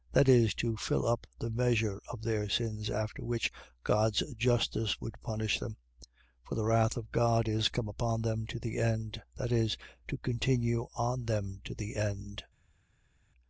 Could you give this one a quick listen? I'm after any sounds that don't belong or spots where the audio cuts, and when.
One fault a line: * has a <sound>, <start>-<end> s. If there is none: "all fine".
all fine